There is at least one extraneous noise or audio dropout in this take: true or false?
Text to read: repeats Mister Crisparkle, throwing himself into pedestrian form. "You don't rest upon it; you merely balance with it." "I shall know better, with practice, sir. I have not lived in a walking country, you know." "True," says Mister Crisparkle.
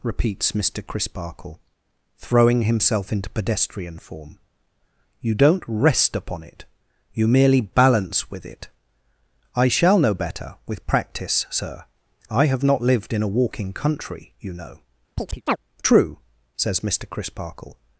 true